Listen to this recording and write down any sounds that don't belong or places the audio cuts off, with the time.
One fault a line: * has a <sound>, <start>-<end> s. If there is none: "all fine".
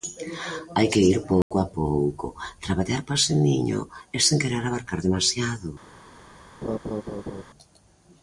* has a dropout, 1.4-1.5 s
* has a laugh, 6.6-7.4 s